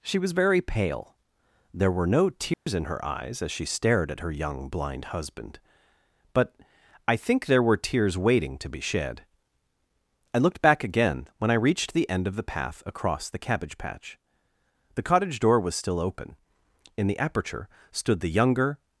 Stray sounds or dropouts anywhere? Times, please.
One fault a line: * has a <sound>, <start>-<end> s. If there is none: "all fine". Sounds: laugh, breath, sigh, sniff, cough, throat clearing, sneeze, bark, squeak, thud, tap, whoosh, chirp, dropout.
* has a dropout, 2.5-2.7 s